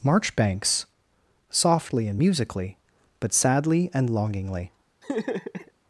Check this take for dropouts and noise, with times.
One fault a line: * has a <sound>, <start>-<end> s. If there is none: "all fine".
* has a laugh, 5.0-5.7 s